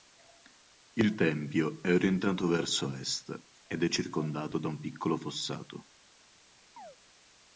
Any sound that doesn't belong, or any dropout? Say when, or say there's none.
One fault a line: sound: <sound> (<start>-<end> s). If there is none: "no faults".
sound: chirp (6.8-7.0 s)